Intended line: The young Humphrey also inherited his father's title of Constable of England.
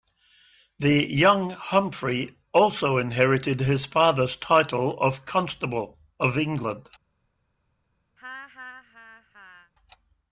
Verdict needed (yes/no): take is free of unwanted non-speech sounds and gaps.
no